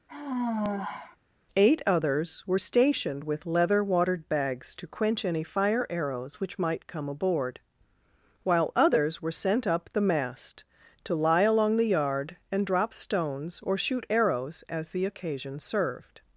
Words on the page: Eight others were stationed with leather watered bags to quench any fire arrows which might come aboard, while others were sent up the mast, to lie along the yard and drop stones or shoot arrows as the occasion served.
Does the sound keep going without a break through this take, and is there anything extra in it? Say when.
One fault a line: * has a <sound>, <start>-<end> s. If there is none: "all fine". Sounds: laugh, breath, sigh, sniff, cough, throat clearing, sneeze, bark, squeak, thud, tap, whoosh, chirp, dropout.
* has a sigh, 0.1-1.2 s